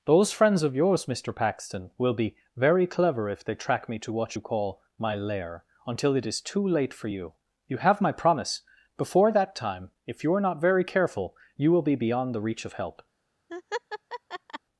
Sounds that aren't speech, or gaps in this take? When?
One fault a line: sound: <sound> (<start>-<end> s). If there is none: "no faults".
sound: laugh (13.5-14.6 s)